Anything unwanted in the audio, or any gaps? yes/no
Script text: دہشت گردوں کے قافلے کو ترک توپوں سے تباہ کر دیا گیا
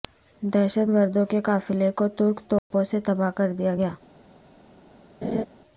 yes